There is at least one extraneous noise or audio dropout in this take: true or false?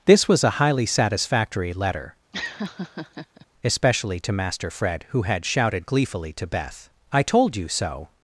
true